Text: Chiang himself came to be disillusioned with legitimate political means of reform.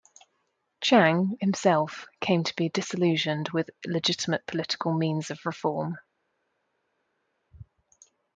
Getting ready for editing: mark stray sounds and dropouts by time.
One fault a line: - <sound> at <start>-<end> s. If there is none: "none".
none